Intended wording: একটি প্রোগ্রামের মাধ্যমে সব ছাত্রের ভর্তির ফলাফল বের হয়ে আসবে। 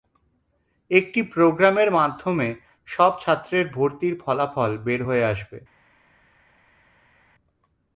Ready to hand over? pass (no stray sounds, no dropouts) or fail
pass